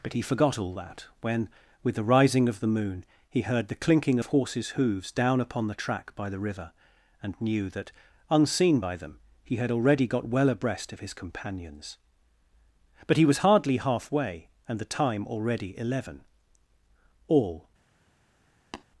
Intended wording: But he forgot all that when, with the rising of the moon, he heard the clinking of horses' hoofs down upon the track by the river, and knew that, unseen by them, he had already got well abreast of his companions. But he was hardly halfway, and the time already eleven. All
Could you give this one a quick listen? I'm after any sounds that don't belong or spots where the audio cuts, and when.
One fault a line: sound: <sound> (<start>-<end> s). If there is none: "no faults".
sound: tap (18.7-18.8 s)